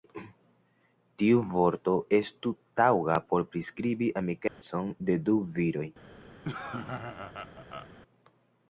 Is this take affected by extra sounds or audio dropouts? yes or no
yes